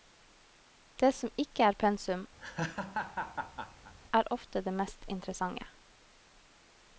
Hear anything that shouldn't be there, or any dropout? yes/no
yes